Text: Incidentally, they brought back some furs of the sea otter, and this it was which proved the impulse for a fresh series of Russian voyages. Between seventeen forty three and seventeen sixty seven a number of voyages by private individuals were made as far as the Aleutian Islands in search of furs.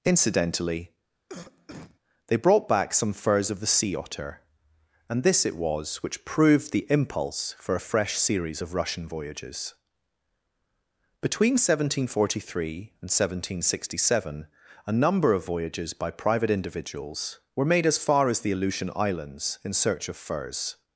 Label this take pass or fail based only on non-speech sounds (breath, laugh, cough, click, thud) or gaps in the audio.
fail